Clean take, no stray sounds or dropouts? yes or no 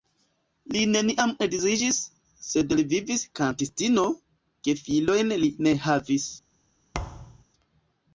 no